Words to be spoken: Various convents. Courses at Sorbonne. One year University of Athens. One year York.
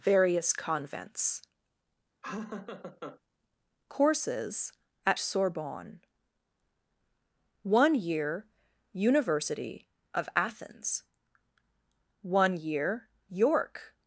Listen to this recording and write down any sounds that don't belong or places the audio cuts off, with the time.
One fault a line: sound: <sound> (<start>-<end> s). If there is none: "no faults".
sound: laugh (2.2-3.2 s)